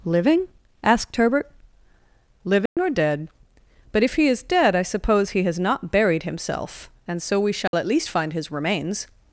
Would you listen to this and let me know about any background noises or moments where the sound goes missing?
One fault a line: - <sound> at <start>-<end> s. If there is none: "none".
- dropout at 2.7-2.8 s
- dropout at 7.7-7.7 s